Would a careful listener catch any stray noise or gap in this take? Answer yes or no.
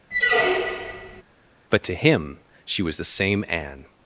yes